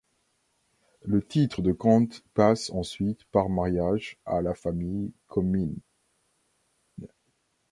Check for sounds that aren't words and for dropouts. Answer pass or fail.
pass